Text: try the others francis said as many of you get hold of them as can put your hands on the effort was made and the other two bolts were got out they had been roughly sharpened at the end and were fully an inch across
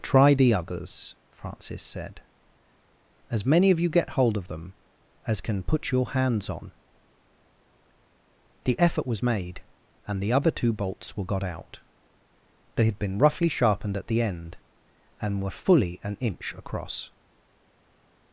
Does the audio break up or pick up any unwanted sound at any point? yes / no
no